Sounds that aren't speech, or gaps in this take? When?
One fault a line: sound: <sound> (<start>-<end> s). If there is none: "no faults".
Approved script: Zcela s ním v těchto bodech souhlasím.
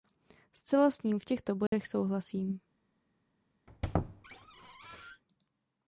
sound: dropout (1.7-1.7 s)
sound: squeak (3.7-5.2 s)